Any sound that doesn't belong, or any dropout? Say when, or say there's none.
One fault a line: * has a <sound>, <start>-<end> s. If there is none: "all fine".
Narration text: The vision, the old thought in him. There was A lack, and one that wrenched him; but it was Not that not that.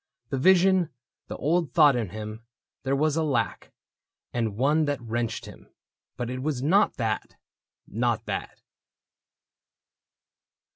all fine